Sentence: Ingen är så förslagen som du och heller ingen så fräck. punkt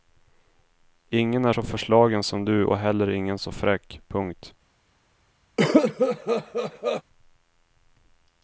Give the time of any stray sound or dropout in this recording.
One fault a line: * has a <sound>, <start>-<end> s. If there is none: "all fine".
* has a cough, 5.6-7.0 s